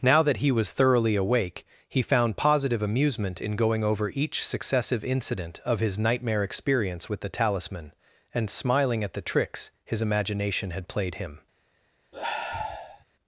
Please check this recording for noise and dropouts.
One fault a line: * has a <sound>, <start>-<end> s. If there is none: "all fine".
* has a sigh, 12.1-13.0 s